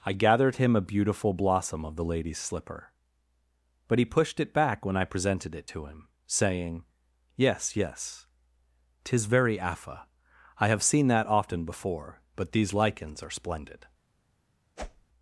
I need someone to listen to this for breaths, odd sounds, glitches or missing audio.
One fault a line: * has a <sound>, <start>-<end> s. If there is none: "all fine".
* has a whoosh, 14.8-15.1 s